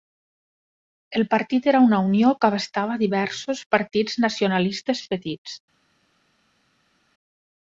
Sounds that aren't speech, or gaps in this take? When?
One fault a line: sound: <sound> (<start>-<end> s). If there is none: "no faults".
no faults